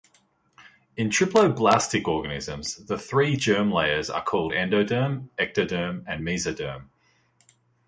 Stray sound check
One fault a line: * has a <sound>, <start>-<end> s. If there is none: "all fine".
all fine